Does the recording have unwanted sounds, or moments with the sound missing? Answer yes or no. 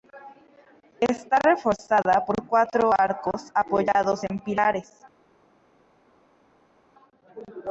no